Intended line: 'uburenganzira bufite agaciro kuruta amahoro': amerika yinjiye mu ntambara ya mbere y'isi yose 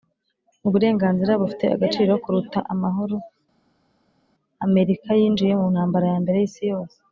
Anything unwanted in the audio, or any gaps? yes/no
no